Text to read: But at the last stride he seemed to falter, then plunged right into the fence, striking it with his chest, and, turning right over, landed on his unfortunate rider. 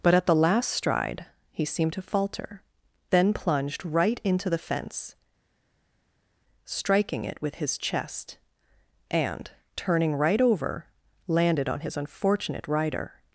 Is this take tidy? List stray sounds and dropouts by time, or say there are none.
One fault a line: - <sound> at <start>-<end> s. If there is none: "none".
none